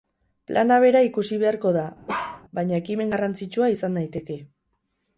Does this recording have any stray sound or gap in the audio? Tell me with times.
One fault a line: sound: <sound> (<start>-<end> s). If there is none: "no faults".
sound: bark (2.1-2.4 s)